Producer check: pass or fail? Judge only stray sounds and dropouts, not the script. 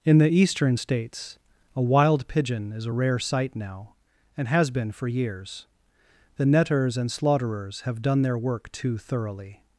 pass